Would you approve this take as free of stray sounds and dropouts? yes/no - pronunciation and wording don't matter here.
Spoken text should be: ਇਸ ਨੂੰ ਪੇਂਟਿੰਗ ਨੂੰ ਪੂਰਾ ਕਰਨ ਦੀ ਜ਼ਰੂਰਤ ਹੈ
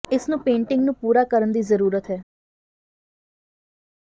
yes